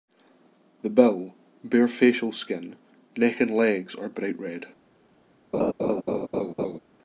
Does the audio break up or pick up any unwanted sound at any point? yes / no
yes